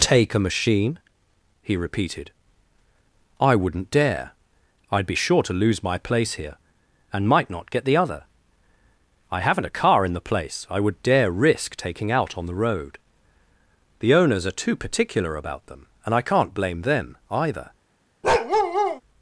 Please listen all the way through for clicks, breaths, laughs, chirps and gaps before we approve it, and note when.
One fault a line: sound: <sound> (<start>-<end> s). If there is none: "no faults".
sound: bark (18.2-19.0 s)